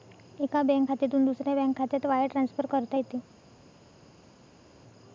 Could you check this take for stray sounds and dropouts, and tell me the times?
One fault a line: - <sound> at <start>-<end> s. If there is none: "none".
none